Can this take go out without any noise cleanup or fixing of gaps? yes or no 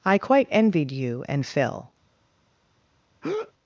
no